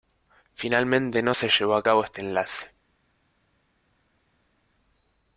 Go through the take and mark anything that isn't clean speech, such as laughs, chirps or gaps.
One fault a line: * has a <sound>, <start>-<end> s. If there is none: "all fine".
all fine